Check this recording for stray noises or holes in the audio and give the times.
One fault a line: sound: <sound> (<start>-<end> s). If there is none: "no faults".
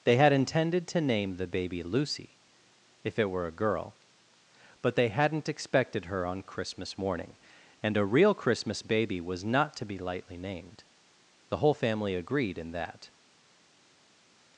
no faults